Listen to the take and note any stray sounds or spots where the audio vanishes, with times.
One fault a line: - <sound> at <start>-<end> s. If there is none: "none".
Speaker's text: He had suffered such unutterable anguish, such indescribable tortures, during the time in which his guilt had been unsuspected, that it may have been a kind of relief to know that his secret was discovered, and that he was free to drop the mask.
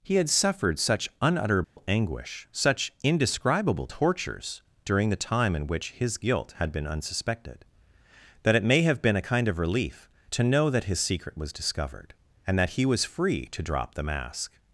- dropout at 1.6-1.8 s